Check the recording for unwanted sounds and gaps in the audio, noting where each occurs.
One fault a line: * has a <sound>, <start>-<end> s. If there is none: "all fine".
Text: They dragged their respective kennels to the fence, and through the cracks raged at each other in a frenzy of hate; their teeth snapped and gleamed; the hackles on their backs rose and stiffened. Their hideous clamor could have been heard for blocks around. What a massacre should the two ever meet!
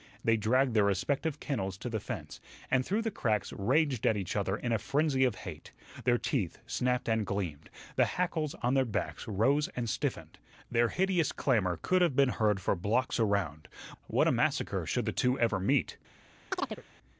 * has a chirp, 16.5-16.8 s